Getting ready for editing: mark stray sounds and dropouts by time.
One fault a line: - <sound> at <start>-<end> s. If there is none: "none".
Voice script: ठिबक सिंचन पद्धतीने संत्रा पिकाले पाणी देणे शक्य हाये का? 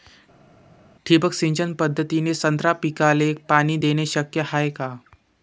none